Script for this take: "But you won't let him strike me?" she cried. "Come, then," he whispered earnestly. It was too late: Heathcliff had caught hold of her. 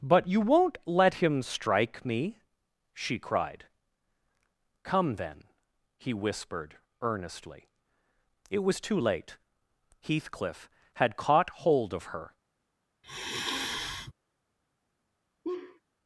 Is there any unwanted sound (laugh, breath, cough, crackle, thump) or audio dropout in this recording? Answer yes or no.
yes